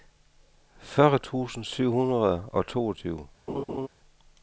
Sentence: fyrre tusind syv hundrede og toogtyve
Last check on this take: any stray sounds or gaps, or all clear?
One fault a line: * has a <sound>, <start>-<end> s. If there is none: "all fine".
* has a laugh, 3.5-3.9 s